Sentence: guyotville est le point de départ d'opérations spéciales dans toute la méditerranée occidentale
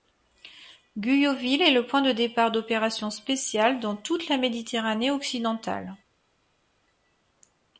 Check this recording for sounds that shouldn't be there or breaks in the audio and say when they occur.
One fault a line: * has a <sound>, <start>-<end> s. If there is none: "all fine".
all fine